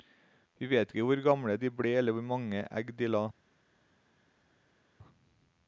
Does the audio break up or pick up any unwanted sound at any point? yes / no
no